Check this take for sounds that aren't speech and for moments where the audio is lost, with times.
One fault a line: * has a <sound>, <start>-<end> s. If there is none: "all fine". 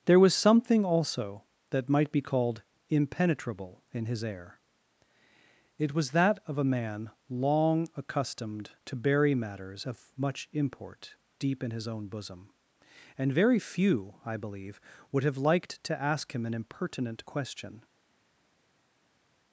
all fine